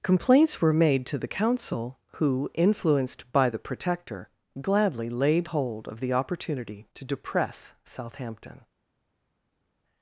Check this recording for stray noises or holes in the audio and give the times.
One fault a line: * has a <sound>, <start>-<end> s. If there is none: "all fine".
all fine